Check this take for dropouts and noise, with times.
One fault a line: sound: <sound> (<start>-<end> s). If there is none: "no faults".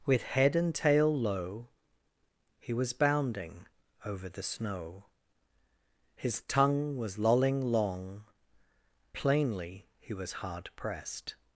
no faults